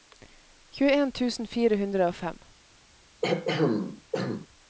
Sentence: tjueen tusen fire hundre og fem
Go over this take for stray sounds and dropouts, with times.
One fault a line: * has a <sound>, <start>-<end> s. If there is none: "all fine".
* has a throat clearing, 3.2-4.5 s